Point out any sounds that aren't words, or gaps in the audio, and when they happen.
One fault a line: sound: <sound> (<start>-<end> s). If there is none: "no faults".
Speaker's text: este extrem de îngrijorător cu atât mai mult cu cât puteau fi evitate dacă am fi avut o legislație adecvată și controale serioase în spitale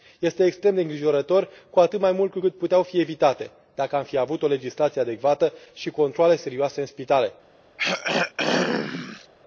sound: throat clearing (7.8-9.3 s)